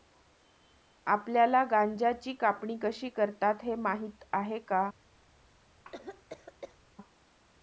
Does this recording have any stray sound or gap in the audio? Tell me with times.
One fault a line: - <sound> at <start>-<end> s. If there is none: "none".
- cough at 5.8-6.8 s